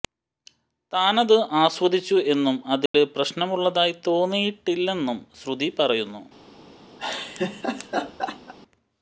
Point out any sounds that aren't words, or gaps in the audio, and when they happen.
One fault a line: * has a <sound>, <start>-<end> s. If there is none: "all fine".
* has a dropout, 2.9-2.9 s
* has a laugh, 7.0-8.5 s